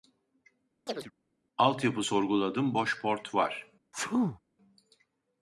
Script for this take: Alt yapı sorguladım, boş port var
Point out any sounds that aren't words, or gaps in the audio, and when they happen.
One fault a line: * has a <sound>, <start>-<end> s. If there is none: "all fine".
* has a chirp, 0.9-1.1 s
* has a sneeze, 3.9-4.4 s